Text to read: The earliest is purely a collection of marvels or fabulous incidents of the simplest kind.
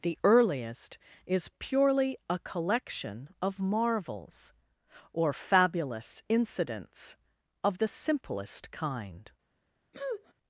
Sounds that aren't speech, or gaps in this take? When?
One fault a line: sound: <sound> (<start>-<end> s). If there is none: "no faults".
sound: sniff (9.9-10.3 s)